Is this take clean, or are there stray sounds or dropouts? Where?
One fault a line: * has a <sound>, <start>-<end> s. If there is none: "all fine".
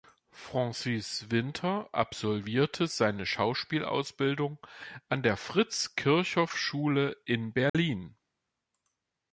* has a dropout, 7.7-7.7 s